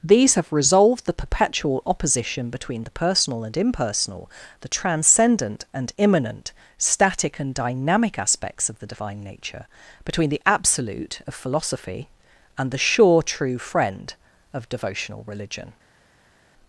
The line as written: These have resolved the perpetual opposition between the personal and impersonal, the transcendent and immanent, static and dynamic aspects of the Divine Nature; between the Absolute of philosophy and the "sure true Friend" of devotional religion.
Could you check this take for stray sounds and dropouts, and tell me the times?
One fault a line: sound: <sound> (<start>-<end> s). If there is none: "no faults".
no faults